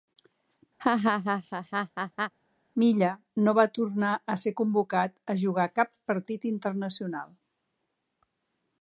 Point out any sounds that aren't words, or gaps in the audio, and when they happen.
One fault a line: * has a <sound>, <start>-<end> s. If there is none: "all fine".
* has a laugh, 0.8-2.3 s